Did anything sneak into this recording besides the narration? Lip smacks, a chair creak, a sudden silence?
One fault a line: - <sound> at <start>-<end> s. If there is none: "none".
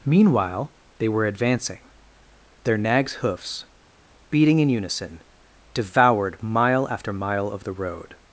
none